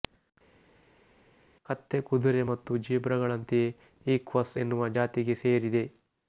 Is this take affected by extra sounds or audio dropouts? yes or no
no